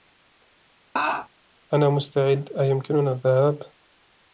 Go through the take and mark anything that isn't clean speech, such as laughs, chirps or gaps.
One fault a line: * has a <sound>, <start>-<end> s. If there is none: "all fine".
* has a laugh, 1.0-1.3 s